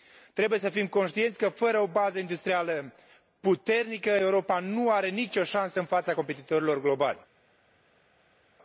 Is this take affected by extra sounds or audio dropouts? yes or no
no